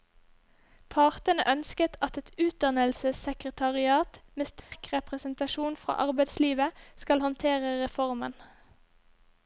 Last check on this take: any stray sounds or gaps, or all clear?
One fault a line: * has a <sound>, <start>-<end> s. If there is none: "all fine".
* has a dropout, 4.6-4.7 s